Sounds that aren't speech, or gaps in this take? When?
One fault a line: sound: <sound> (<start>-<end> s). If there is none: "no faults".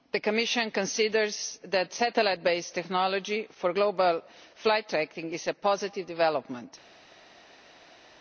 no faults